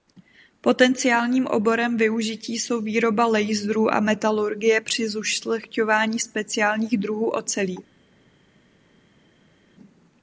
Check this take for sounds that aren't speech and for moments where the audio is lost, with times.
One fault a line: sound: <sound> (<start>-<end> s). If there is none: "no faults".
no faults